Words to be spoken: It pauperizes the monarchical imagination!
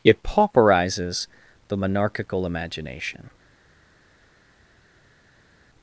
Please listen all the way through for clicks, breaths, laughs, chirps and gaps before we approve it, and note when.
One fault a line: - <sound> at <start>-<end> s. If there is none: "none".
none